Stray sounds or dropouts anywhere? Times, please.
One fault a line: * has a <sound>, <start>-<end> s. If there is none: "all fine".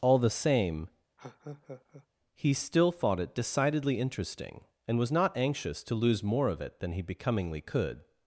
* has a laugh, 1.2-2.1 s